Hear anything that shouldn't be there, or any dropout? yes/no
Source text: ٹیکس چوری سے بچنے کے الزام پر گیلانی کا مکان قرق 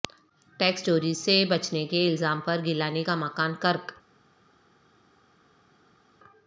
no